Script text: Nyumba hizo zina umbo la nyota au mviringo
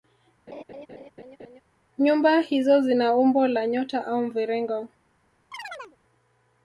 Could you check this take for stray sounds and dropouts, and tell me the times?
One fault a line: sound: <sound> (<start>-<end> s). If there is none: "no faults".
sound: laugh (0.5-1.6 s)
sound: chirp (5.5-6.0 s)